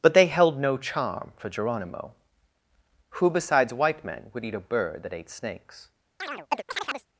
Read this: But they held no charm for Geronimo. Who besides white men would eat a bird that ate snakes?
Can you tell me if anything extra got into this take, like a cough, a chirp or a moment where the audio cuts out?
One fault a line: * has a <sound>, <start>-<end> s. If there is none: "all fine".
* has a chirp, 6.2-7.1 s